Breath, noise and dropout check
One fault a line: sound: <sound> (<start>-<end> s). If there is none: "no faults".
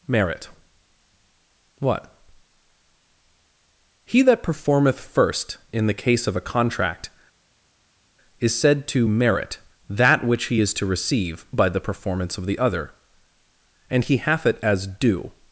no faults